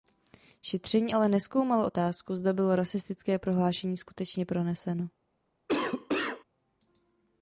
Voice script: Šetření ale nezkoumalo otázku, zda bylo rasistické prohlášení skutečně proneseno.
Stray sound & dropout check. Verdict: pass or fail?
fail